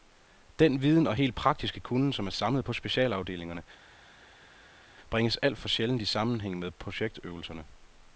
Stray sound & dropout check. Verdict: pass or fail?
pass